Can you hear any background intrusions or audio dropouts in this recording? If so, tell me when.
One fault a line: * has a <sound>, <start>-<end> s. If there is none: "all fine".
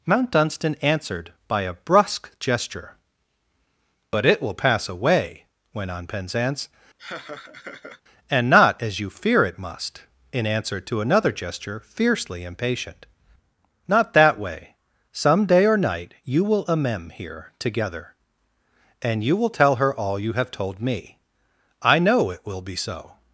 * has a laugh, 7.0-8.0 s